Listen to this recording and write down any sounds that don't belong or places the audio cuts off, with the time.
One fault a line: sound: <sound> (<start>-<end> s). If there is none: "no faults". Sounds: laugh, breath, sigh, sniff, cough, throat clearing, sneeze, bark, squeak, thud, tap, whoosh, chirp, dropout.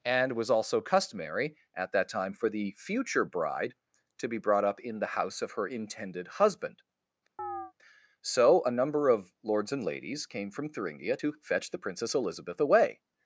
sound: chirp (7.4-7.7 s)